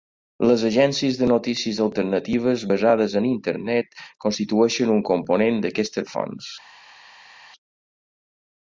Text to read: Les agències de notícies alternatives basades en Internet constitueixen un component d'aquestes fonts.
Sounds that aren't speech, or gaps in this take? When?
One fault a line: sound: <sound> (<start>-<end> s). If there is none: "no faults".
no faults